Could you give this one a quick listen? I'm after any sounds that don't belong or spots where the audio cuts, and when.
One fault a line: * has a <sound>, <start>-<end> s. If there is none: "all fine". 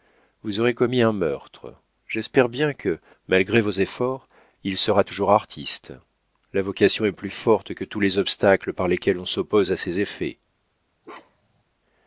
* has a bark, 11.0-11.6 s